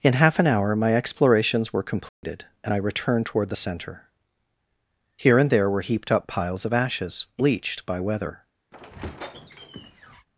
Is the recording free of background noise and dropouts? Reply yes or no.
no